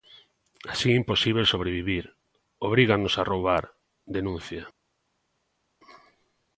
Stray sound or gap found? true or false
false